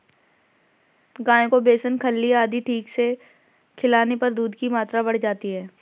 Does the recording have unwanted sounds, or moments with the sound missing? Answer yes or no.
no